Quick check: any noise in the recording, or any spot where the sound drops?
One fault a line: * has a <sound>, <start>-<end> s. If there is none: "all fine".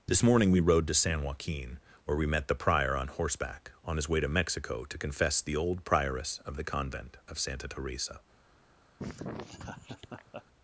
* has a laugh, 9.0-10.4 s